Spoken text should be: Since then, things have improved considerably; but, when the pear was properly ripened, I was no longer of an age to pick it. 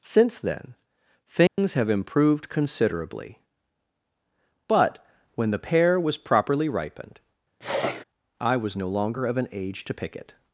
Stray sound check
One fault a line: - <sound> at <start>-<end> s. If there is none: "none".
- dropout at 1.5-1.6 s
- sneeze at 7.6-8.0 s